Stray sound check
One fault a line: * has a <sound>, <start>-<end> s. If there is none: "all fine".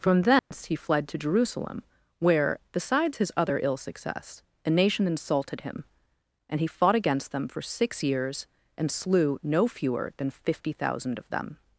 * has a dropout, 0.4-0.5 s